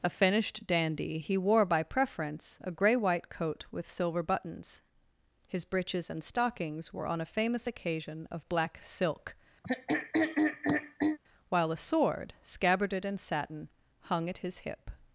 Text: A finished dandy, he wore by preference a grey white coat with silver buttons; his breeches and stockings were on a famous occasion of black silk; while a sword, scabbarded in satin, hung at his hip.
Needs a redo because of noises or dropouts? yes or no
yes